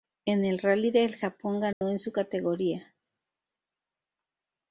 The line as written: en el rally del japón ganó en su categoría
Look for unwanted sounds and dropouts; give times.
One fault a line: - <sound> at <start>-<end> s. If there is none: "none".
- dropout at 1.7-1.8 s